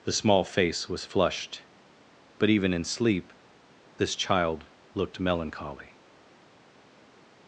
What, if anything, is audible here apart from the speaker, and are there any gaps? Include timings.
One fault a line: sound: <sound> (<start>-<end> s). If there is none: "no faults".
no faults